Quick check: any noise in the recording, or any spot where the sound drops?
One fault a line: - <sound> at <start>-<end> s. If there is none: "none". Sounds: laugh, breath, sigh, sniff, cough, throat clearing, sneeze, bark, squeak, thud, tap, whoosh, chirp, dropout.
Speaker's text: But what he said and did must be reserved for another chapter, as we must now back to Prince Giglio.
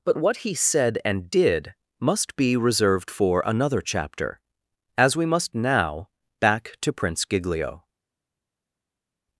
none